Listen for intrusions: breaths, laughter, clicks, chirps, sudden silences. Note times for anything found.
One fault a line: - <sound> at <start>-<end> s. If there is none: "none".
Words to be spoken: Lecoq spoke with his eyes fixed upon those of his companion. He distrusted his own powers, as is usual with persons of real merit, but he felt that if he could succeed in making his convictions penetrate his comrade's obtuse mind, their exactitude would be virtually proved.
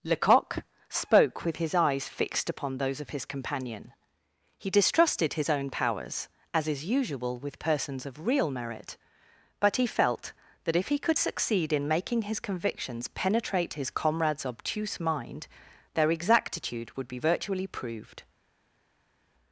none